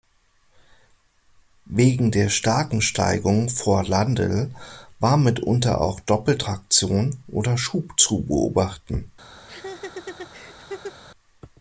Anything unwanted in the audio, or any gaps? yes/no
yes